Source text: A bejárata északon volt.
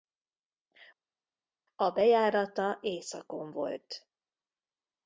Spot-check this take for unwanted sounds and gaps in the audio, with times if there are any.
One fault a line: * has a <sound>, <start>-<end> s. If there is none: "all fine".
all fine